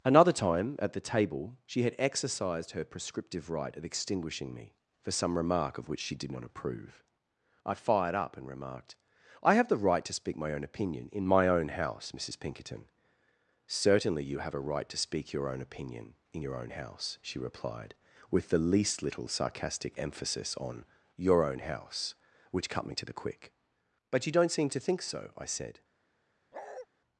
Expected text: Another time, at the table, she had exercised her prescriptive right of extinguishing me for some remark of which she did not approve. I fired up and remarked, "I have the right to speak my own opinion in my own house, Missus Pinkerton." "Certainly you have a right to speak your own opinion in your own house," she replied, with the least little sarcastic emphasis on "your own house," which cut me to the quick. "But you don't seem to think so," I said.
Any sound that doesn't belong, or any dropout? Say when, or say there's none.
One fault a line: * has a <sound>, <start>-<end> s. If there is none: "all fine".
* has a bark, 26.5-26.9 s